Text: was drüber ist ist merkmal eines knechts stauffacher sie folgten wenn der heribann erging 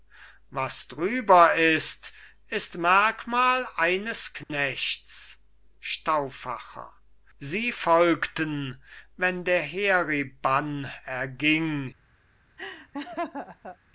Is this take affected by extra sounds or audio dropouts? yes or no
yes